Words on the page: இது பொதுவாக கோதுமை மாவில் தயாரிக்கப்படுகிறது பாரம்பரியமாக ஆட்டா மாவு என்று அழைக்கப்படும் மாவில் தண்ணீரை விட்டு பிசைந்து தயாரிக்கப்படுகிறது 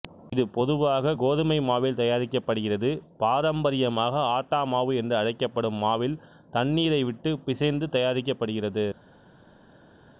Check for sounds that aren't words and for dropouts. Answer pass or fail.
pass